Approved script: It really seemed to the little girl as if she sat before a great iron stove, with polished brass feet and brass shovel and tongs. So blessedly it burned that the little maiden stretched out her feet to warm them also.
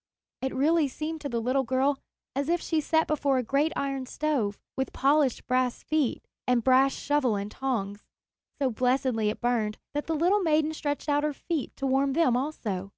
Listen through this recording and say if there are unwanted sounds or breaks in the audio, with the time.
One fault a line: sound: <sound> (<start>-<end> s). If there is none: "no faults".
no faults